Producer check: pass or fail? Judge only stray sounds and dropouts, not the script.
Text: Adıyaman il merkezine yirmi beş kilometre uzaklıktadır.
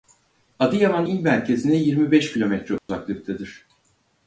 fail